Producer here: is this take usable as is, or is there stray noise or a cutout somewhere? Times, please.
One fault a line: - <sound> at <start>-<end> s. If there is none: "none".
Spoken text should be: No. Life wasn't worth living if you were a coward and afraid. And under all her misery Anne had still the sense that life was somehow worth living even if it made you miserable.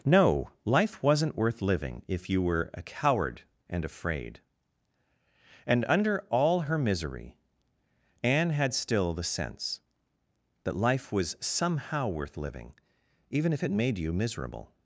none